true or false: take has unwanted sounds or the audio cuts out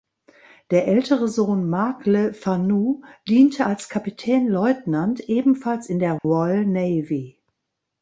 true